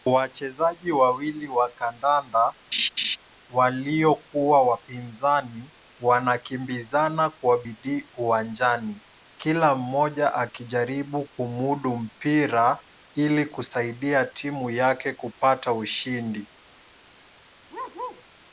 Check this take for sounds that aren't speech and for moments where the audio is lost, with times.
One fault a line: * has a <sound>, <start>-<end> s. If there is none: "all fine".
* has a laugh, 2.7-3.2 s
* has a bark, 17.7-18.2 s